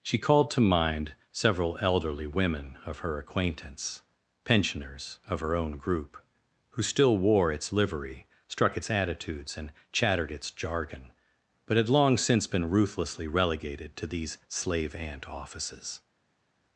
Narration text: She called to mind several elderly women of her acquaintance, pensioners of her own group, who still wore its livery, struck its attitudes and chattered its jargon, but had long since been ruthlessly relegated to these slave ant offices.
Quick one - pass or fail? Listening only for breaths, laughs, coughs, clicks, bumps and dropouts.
pass